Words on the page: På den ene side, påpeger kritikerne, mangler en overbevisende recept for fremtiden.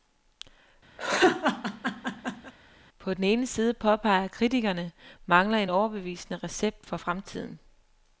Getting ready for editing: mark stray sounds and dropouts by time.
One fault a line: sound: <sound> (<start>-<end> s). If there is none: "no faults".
sound: laugh (1.0-2.5 s)